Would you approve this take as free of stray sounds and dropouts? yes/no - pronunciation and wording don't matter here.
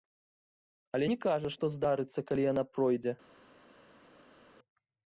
yes